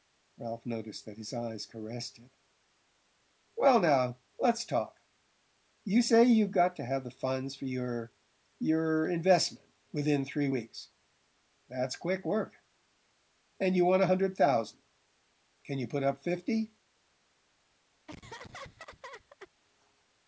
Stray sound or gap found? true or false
true